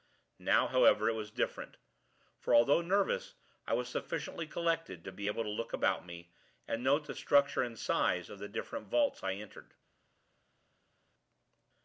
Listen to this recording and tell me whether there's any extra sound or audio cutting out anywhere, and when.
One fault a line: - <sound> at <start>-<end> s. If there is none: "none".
none